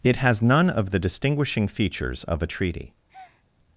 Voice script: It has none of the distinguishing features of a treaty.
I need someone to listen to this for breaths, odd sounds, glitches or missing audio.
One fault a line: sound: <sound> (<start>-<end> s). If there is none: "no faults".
sound: breath (3.1-3.4 s)